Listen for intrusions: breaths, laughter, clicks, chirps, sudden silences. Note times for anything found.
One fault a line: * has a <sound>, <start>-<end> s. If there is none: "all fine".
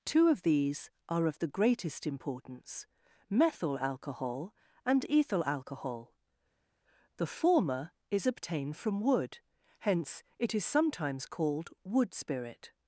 all fine